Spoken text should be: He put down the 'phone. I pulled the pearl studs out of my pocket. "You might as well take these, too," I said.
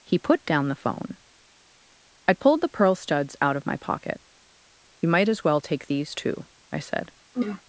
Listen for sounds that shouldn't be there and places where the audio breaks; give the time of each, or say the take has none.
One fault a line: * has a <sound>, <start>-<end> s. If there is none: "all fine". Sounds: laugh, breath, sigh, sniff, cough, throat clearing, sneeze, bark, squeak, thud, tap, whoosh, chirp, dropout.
* has a throat clearing, 7.3-7.6 s